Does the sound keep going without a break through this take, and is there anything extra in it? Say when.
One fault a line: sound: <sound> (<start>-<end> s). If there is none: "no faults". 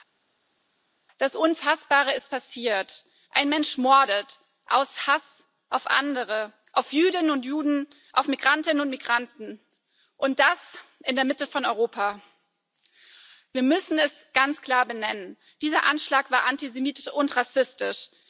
no faults